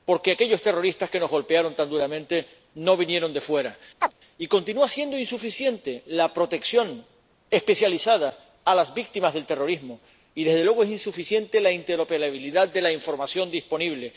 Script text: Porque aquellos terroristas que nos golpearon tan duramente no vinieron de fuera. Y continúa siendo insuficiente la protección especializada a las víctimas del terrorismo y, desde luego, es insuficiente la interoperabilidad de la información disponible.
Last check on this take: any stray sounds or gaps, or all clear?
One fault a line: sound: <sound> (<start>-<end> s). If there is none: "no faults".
sound: chirp (4.0-4.1 s)